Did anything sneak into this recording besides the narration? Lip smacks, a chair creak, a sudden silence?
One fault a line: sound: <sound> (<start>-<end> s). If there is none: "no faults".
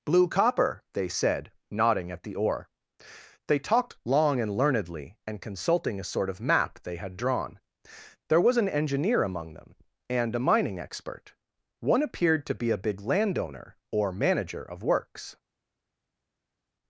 no faults